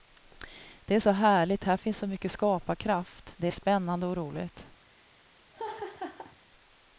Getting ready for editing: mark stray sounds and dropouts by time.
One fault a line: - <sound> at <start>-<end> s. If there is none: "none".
- laugh at 5.5-6.4 s